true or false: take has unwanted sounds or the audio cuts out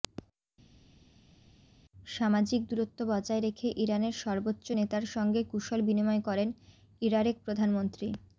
false